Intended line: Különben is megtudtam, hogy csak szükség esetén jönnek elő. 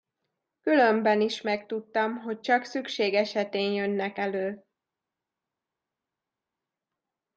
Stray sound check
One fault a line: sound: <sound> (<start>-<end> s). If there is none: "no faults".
no faults